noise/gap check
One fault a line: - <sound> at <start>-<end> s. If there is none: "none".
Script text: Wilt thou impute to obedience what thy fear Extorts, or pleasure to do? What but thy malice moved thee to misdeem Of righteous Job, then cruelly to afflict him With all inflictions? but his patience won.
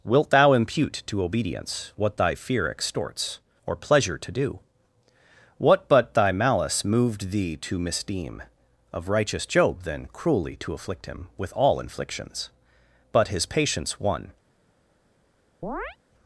- chirp at 15.6-16.0 s